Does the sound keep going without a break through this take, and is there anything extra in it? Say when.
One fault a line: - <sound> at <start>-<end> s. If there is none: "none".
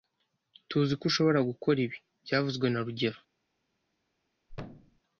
- thud at 4.5-5.0 s